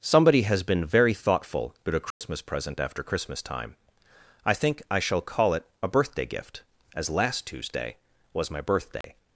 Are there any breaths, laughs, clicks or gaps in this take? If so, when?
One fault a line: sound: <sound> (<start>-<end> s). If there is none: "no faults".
sound: dropout (2.1-2.2 s)
sound: dropout (9.0-9.0 s)